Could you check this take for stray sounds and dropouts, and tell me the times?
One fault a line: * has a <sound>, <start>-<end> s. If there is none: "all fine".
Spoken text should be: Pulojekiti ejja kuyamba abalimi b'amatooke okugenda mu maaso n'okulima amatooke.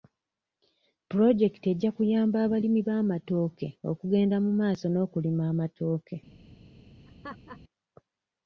* has a laugh, 7.1-7.6 s